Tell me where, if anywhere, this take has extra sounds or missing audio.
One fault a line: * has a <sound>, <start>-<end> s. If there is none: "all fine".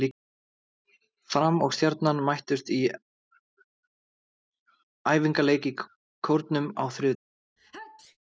* has a sneeze, 7.6-8.2 s